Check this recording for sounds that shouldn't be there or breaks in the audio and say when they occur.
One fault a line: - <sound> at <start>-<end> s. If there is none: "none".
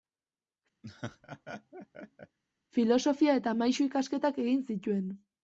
- laugh at 0.8-2.4 s